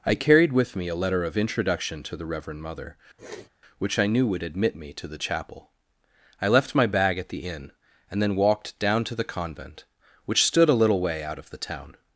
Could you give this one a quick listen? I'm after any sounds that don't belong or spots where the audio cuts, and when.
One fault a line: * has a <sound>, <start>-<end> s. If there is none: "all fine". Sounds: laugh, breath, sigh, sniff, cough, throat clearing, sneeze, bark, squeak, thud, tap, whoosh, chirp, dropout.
* has a sniff, 3.2-3.5 s